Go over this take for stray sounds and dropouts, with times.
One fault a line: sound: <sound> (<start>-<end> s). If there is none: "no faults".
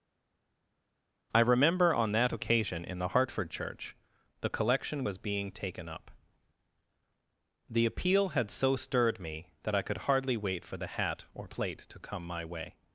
no faults